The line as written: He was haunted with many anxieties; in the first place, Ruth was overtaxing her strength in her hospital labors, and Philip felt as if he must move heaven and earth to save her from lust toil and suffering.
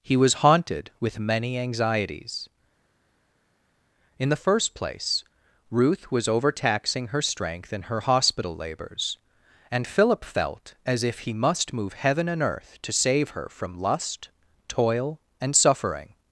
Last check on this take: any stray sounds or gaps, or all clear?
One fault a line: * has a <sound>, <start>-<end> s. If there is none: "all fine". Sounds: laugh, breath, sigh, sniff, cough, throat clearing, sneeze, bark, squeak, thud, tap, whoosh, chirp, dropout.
all fine